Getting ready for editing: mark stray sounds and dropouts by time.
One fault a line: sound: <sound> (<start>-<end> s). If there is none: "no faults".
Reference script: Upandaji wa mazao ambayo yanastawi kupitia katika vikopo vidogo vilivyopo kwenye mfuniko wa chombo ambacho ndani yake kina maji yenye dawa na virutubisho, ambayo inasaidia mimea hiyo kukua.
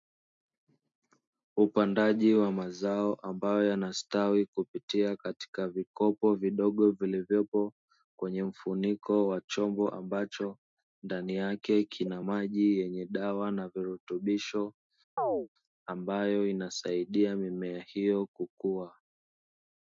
sound: chirp (15.2-15.5 s)